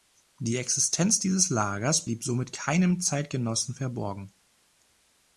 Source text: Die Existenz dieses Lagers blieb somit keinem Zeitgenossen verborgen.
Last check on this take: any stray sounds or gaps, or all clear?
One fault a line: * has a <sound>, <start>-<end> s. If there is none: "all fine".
all fine